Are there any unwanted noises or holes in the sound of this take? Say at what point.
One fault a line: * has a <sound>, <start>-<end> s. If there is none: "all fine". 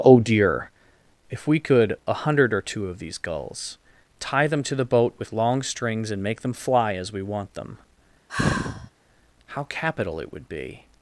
* has a sigh, 8.3-8.9 s